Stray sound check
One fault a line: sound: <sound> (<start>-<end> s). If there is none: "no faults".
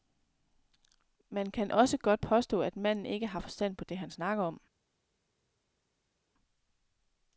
no faults